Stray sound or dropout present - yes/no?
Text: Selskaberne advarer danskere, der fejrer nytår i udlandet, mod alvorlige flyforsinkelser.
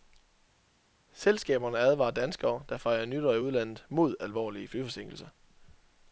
no